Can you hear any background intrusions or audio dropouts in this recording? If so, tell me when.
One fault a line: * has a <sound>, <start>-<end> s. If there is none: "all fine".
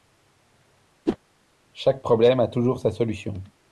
* has a whoosh, 1.1-1.2 s